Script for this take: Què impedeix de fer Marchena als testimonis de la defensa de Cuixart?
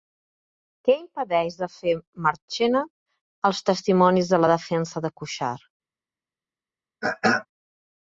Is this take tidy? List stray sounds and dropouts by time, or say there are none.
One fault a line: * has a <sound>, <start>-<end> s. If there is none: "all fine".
* has a throat clearing, 7.0-7.5 s